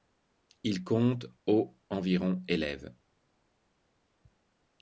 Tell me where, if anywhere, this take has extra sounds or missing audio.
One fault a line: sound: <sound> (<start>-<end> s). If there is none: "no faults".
no faults